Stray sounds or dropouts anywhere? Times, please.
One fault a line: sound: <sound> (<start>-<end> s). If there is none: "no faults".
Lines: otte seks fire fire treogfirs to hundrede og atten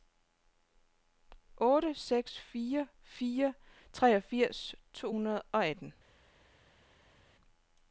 no faults